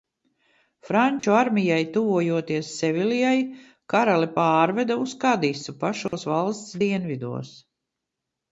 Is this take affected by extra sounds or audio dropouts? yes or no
yes